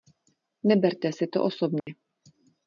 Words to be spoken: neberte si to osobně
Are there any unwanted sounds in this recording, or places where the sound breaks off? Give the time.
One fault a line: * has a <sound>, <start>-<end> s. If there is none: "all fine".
* has a dropout, 1.8-1.9 s